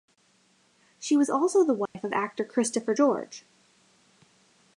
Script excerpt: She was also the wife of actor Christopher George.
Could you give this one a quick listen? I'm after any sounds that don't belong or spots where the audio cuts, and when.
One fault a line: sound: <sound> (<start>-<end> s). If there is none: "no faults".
sound: dropout (1.9-1.9 s)